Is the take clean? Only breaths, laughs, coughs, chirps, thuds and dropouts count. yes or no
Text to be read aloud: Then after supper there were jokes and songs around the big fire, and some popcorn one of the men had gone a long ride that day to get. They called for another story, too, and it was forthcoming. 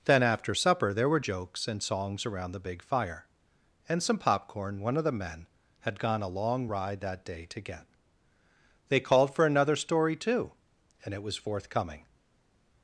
yes